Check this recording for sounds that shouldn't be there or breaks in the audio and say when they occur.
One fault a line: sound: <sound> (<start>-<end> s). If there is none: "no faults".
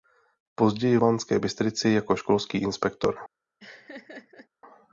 sound: laugh (3.6-4.5 s)